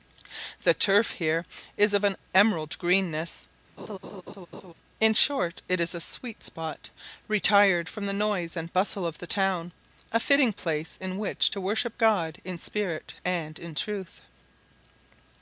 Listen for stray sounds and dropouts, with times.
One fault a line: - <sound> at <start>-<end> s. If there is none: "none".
- laugh at 3.8-4.7 s